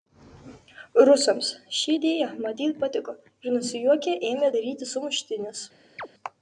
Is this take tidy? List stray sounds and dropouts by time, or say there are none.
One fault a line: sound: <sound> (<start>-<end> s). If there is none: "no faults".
sound: chirp (6.0-6.1 s)